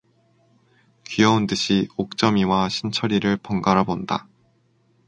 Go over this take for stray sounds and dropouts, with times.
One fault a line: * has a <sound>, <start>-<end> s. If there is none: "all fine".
all fine